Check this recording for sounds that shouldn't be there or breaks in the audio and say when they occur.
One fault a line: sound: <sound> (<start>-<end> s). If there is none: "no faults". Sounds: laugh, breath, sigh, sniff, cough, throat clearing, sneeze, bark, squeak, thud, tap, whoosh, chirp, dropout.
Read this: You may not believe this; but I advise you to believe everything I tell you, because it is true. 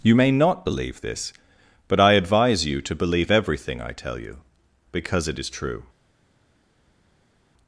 no faults